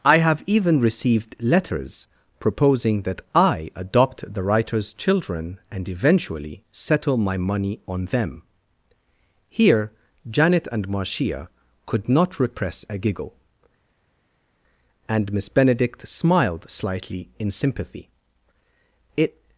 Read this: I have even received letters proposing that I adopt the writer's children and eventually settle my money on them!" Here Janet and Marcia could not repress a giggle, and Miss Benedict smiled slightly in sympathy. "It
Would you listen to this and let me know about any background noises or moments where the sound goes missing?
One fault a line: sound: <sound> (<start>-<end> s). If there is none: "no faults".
no faults